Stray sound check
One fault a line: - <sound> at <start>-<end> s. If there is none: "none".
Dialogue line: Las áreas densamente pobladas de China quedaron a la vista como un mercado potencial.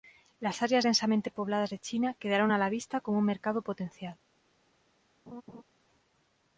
- laugh at 5.3-5.6 s